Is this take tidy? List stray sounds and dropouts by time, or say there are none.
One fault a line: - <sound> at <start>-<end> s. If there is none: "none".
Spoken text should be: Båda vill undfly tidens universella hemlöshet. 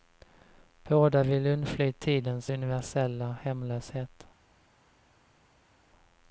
none